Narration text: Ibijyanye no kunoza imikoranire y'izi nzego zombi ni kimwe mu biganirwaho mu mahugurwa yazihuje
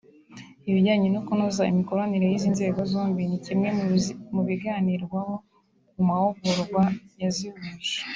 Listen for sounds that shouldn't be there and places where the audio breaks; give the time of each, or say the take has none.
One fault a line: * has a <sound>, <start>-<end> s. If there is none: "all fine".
all fine